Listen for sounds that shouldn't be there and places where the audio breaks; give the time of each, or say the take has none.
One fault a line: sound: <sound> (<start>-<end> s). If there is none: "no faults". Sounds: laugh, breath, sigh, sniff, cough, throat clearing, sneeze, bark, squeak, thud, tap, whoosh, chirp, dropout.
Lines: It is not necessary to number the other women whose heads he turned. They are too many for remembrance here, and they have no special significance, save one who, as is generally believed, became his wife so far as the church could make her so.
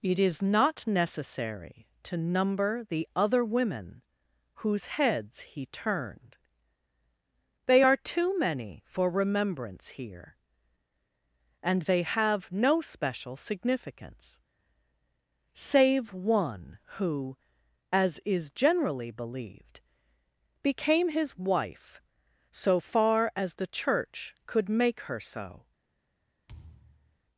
sound: thud (26.5-27.2 s)